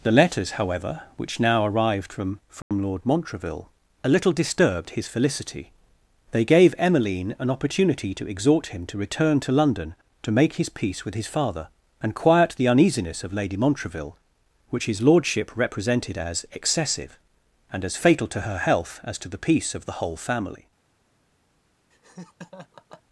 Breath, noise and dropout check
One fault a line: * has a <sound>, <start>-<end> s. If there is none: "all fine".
* has a dropout, 2.6-2.7 s
* has a laugh, 21.9-23.0 s